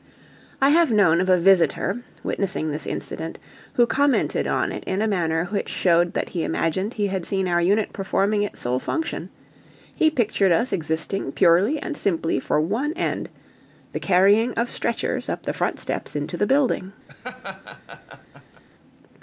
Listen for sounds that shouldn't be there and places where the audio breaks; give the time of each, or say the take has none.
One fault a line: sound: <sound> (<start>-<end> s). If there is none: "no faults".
sound: laugh (17.1-18.6 s)